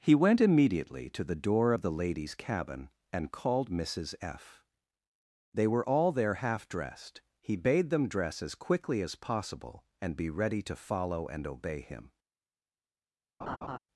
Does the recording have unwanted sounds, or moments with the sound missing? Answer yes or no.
yes